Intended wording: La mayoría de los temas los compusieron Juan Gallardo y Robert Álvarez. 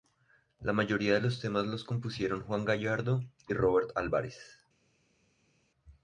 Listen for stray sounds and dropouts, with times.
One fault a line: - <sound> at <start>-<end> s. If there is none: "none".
none